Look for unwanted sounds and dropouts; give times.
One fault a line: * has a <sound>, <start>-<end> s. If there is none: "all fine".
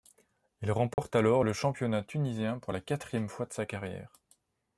* has a dropout, 0.9-1.0 s